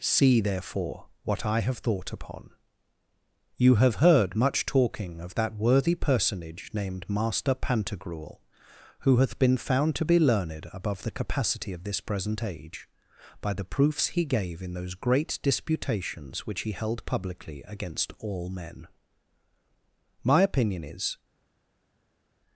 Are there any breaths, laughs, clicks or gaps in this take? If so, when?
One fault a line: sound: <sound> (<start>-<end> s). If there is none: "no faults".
no faults